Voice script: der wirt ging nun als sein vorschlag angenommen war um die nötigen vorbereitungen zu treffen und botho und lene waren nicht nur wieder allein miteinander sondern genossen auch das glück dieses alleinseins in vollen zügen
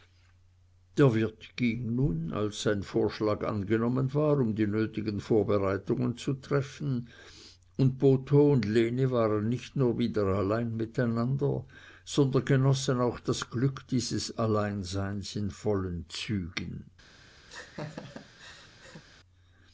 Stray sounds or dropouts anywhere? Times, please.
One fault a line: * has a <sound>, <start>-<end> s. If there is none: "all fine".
* has a laugh, 17.5-19.0 s